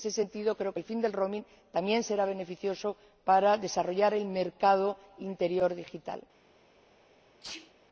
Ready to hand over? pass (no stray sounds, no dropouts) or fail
fail